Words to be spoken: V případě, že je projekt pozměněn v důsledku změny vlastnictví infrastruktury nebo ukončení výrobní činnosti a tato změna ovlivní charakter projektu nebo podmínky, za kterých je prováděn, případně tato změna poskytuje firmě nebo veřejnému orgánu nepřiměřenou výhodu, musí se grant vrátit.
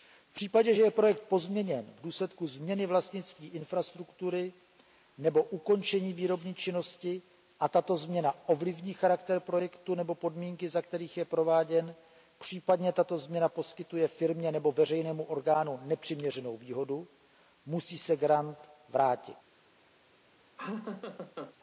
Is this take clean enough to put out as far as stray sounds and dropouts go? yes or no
no